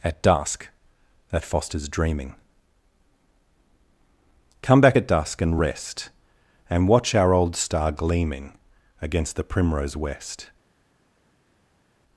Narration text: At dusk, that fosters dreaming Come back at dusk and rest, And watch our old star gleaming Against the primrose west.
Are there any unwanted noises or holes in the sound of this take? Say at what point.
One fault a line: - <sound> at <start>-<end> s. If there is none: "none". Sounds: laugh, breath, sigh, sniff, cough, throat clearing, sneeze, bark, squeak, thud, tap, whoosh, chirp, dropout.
none